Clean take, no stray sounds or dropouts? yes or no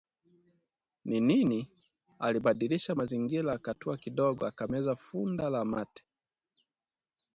yes